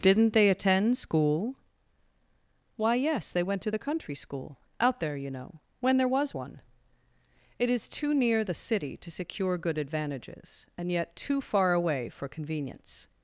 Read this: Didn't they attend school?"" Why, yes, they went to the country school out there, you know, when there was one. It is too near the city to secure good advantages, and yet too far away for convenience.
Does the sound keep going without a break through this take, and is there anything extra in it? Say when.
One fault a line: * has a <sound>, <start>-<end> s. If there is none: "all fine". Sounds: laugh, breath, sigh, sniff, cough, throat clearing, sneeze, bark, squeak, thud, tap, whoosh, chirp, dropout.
all fine